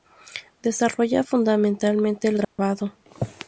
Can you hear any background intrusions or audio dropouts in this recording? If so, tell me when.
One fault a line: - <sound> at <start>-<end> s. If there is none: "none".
- dropout at 2.4-2.6 s